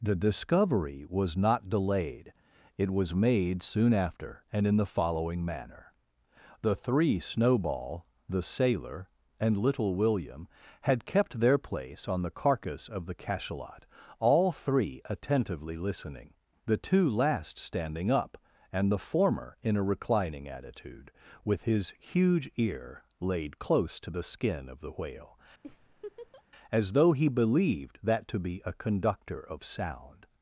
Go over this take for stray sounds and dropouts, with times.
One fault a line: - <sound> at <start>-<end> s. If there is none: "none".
- laugh at 25.6-26.4 s